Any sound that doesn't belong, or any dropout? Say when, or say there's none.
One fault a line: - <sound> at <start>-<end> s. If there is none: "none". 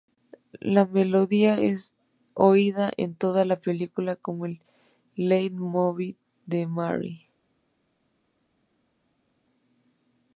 none